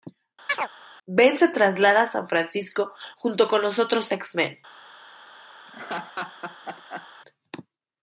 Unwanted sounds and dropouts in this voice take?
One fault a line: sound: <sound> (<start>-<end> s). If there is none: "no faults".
sound: chirp (0.5-0.7 s)
sound: laugh (5.7-7.1 s)